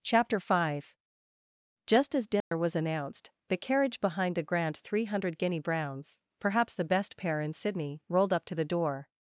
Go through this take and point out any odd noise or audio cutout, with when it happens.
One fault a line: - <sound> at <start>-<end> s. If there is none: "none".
- dropout at 2.4-2.5 s